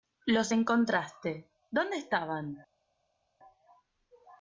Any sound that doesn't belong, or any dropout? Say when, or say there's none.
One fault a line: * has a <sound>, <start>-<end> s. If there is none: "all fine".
all fine